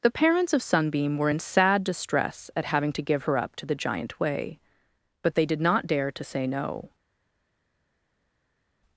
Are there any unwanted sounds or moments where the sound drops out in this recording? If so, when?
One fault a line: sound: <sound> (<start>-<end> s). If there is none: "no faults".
no faults